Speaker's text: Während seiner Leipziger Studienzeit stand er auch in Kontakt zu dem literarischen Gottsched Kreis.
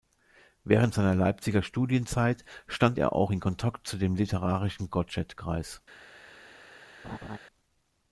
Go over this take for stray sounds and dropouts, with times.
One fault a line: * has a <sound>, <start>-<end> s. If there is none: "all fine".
* has a laugh, 7.0-7.4 s